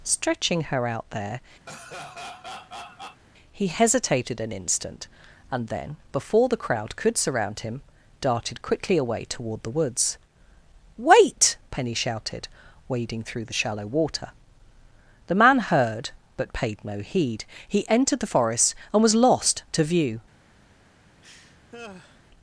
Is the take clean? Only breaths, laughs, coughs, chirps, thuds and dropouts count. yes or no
no